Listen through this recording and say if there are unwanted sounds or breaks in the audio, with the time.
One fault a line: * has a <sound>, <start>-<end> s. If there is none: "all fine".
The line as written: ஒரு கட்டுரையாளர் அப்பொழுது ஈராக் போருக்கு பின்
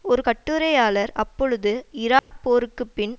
* has a dropout, 2.2-2.3 s